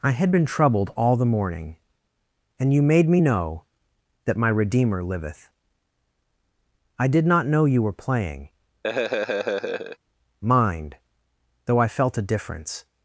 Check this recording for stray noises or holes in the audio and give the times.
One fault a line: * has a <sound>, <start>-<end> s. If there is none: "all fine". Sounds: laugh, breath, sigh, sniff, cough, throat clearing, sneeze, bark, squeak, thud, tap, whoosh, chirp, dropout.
* has a laugh, 8.8-10.0 s